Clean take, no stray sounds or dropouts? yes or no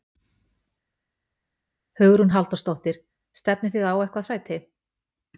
yes